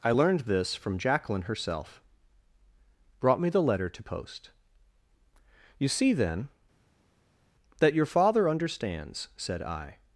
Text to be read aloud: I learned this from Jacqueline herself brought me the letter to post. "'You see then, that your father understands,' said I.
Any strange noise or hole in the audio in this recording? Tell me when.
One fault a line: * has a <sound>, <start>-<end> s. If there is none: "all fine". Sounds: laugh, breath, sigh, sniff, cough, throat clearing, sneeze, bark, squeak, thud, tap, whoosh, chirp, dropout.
all fine